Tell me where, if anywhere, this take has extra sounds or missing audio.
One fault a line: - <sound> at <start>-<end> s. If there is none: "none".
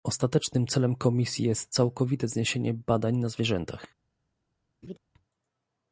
- laugh at 4.8-5.0 s